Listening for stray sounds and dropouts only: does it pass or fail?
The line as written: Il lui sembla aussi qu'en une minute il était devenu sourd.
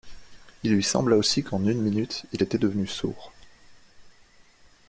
pass